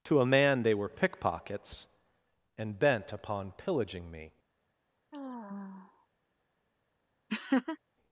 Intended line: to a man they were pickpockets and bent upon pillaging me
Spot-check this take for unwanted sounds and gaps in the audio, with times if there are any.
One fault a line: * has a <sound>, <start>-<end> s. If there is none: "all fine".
* has a sigh, 5.1-6.1 s
* has a laugh, 7.3-7.8 s